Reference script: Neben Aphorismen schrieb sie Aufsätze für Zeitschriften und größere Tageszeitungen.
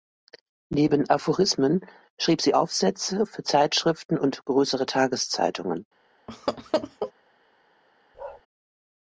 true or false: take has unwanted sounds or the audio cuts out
true